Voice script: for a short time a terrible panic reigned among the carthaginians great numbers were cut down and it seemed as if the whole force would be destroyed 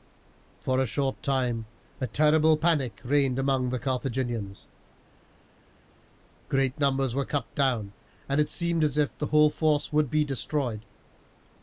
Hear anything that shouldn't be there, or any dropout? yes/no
no